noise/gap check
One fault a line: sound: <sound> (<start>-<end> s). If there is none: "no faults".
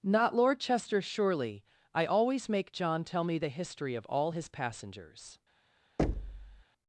sound: thud (6.0-6.6 s)